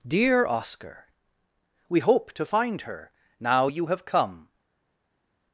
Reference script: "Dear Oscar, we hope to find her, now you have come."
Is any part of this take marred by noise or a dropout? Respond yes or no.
no